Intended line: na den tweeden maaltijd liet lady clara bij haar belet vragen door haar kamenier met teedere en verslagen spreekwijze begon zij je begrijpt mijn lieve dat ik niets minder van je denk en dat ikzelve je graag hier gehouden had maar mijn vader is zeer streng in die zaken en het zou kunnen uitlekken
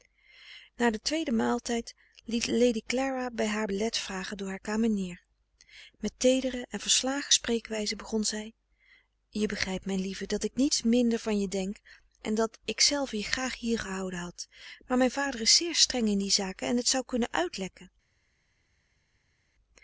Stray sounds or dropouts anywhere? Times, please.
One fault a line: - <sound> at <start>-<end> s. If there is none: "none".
none